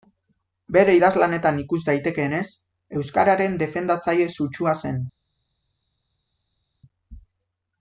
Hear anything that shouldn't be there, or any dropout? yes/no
no